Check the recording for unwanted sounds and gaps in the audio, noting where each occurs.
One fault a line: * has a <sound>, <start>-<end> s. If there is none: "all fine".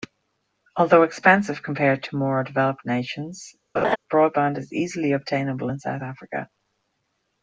* has a laugh, 3.7-4.0 s